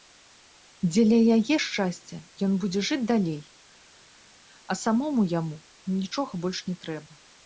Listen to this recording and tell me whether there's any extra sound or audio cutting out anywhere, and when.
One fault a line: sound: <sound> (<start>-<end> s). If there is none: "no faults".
no faults